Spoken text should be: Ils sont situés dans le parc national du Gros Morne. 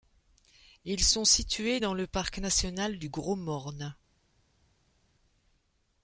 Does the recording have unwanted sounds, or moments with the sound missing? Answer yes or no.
no